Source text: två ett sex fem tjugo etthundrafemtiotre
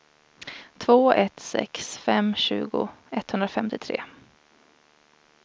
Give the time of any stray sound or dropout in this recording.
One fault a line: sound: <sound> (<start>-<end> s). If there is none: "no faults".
no faults